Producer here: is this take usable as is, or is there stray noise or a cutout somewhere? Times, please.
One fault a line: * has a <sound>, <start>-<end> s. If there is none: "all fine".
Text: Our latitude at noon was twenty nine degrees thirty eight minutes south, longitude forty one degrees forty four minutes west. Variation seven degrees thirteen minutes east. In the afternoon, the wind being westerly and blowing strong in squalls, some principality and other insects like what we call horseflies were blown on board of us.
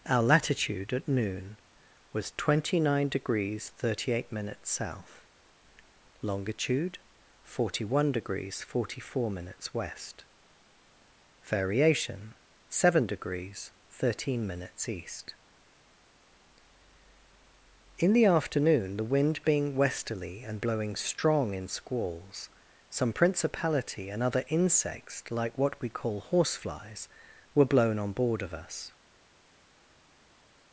all fine